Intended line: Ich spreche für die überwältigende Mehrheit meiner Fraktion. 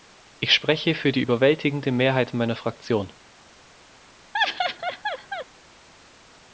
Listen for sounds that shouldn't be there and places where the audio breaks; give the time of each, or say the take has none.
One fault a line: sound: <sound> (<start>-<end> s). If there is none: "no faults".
sound: laugh (4.3-5.5 s)